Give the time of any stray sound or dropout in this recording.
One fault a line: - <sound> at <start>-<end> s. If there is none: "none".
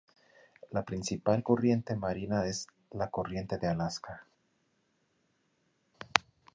none